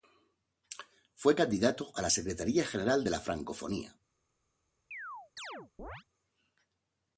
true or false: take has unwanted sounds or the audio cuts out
true